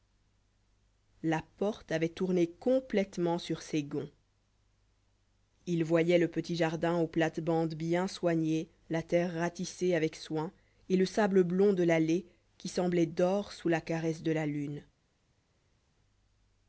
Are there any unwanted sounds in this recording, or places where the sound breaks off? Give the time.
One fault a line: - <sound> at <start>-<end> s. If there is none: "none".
none